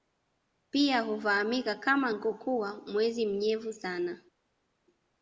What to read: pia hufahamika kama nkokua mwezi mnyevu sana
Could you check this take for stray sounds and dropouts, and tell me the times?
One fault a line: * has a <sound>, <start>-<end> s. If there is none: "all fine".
all fine